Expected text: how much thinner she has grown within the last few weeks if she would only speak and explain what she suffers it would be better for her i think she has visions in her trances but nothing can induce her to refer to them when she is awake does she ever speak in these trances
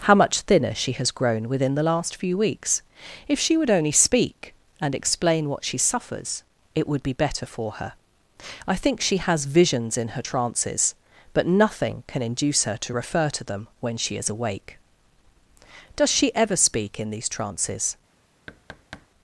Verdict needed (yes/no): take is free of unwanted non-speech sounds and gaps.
no